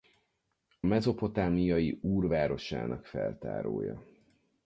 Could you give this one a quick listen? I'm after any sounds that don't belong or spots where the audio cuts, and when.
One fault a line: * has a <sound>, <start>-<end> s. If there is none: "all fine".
all fine